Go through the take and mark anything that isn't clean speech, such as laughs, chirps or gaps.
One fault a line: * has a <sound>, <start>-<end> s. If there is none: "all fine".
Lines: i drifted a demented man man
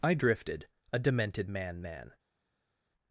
all fine